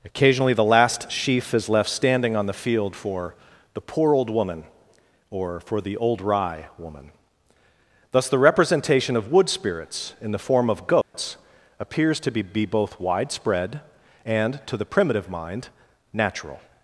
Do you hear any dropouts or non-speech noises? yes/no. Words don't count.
yes